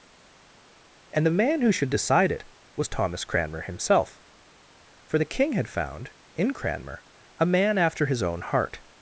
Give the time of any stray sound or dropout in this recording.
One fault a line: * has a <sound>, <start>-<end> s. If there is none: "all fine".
all fine